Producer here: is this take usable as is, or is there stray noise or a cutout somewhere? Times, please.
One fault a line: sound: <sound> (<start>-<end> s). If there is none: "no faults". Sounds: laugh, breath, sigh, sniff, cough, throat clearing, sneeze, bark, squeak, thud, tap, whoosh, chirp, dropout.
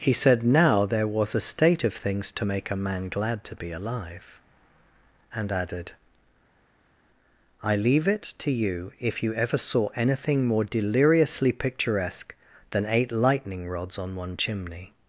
no faults